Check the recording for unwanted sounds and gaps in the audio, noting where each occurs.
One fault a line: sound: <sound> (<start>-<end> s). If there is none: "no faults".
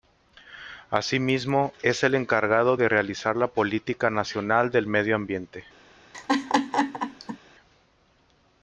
sound: laugh (6.1-7.4 s)